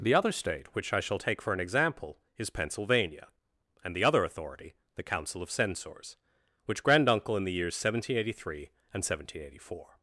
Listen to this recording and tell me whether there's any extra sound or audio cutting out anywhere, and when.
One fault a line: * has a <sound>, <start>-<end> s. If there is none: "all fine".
all fine